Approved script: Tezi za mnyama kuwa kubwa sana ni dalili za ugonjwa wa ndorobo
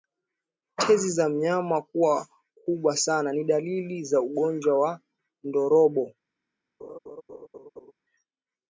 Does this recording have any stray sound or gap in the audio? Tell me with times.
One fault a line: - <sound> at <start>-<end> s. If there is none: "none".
- laugh at 6.8-7.9 s